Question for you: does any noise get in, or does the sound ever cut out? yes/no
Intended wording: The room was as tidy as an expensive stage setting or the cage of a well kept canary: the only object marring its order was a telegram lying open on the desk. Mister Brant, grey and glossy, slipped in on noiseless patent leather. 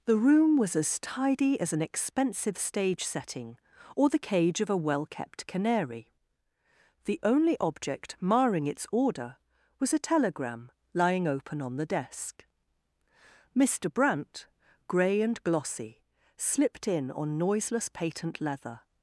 no